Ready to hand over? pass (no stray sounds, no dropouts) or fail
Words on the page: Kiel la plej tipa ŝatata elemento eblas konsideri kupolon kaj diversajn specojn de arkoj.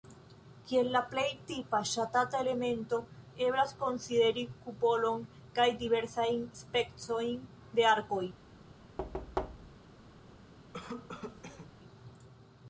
fail